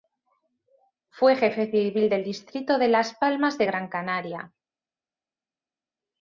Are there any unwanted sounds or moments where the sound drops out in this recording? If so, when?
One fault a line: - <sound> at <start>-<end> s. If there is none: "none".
none